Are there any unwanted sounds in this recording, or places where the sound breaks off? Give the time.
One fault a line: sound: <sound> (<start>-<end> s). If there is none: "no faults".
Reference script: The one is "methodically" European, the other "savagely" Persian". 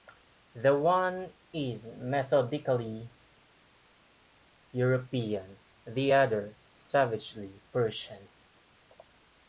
no faults